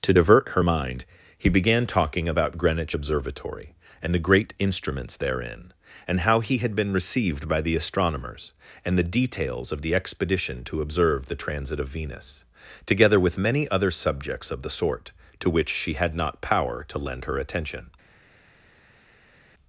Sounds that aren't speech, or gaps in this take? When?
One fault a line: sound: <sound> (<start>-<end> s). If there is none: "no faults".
no faults